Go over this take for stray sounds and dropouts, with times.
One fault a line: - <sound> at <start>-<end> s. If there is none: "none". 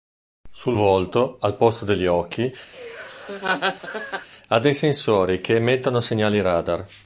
- laugh at 2.7-4.3 s